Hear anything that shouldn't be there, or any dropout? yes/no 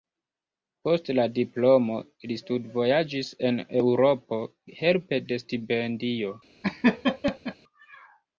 yes